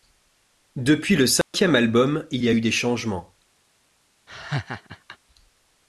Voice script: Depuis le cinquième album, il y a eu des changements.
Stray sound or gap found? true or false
true